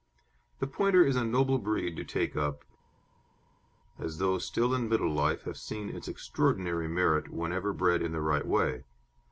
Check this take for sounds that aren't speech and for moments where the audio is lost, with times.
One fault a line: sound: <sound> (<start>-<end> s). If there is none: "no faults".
no faults